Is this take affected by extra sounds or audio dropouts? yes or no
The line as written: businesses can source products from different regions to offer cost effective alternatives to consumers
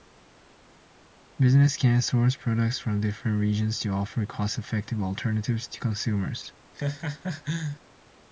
yes